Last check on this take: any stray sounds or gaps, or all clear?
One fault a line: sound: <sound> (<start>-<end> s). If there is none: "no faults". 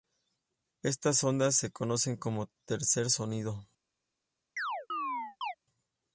sound: chirp (4.6-5.5 s)